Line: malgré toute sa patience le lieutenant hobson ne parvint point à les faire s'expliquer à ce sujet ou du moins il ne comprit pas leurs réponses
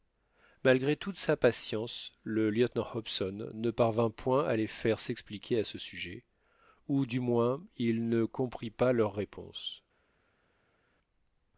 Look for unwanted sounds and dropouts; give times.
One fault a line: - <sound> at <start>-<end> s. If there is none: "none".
none